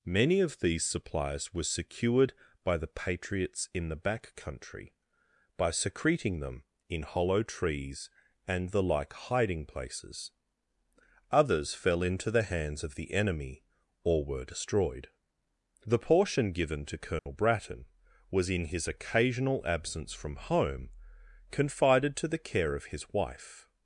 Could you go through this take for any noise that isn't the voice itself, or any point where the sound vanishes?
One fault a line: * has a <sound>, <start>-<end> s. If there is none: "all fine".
* has a dropout, 17.2-17.3 s